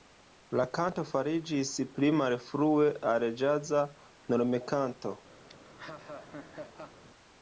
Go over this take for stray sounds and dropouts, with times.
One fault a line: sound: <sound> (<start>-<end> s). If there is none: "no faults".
sound: laugh (5.5-7.0 s)